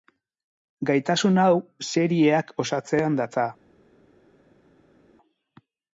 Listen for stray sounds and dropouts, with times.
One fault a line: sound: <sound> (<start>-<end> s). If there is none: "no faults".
no faults